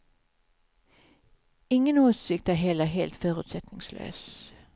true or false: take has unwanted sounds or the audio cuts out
false